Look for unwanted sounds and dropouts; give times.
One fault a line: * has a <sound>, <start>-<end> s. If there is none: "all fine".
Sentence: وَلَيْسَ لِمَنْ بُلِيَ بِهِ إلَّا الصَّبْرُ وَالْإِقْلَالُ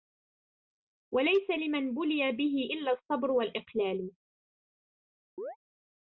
* has a chirp, 5.4-5.6 s